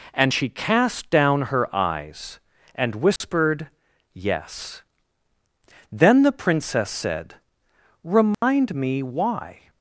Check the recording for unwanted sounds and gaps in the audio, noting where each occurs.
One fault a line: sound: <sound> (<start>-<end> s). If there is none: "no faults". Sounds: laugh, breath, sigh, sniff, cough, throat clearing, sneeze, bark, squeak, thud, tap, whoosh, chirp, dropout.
sound: dropout (3.2-3.2 s)
sound: dropout (8.3-8.4 s)